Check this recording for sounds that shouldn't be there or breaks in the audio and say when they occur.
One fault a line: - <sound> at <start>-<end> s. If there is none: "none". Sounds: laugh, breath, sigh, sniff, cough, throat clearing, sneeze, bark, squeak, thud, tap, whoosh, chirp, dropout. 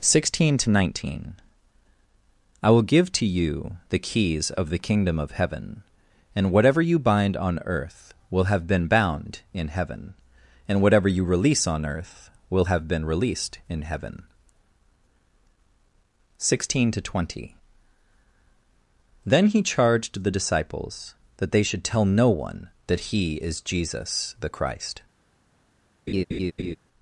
- laugh at 26.1-26.8 s